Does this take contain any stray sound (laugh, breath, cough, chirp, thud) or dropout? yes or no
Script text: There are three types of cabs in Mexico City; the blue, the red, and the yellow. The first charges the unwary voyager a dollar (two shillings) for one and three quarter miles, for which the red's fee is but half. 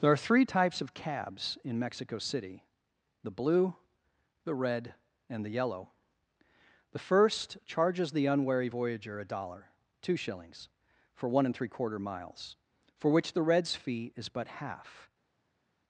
no